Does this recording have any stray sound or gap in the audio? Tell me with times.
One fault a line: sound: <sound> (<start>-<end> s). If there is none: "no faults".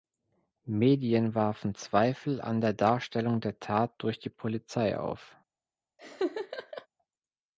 sound: laugh (6.0-6.9 s)